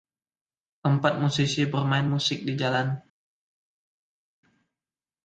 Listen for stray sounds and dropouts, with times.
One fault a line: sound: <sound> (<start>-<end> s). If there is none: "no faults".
no faults